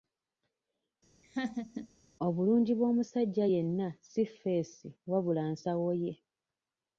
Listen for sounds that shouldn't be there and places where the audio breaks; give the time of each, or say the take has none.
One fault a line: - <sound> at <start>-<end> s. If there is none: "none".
- laugh at 1.2-1.9 s